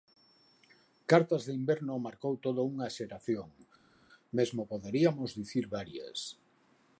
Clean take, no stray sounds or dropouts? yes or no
yes